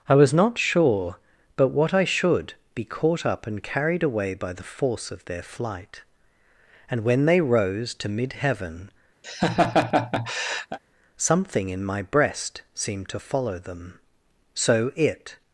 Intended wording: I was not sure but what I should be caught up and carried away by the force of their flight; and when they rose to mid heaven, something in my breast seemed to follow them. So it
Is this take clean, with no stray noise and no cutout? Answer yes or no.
no